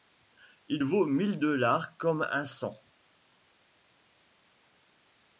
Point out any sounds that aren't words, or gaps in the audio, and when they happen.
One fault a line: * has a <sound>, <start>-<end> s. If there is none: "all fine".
all fine